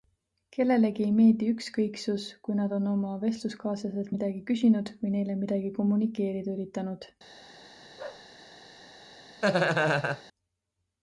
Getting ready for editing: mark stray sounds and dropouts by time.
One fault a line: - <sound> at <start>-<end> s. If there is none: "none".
- bark at 8.0-8.3 s
- laugh at 9.4-10.2 s